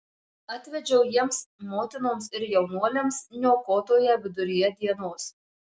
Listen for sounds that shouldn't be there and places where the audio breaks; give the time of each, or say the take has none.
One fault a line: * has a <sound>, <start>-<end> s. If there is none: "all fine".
all fine